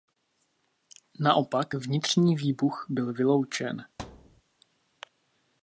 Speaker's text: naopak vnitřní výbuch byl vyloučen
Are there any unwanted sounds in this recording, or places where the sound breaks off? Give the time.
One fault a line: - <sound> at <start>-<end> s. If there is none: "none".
- thud at 4.0-4.4 s